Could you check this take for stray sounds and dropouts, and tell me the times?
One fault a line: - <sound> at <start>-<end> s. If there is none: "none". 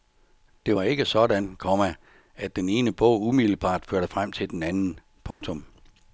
- dropout at 5.3-5.4 s